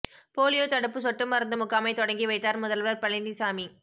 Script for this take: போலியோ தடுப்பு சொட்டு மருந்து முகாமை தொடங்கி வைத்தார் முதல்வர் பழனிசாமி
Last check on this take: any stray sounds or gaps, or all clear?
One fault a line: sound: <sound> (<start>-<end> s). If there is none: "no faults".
no faults